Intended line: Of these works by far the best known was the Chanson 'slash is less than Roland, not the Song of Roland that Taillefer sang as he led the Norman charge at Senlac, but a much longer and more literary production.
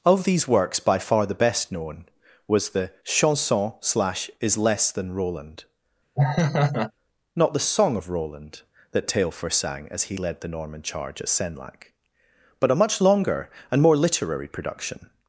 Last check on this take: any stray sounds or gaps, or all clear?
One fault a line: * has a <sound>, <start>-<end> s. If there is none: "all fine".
* has a laugh, 6.2-6.9 s